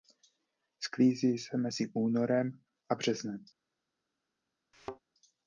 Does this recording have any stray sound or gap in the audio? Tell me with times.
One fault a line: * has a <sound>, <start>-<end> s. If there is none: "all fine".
* has a thud, 4.7-5.0 s